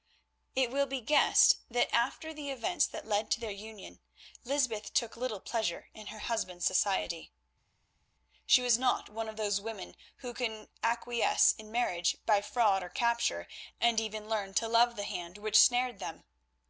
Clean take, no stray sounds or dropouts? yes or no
yes